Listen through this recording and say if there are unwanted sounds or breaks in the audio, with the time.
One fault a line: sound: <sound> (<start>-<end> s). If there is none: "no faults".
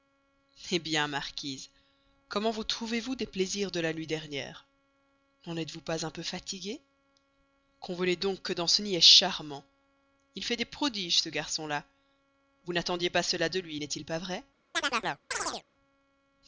sound: chirp (14.7-15.6 s)